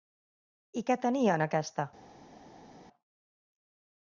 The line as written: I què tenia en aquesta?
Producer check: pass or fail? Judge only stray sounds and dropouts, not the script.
pass